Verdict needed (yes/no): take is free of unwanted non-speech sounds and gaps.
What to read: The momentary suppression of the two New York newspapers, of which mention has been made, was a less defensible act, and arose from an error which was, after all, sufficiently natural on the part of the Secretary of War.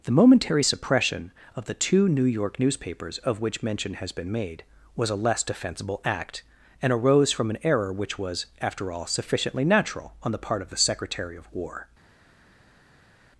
yes